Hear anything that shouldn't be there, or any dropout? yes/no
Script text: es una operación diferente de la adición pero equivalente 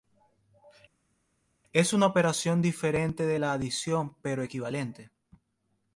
no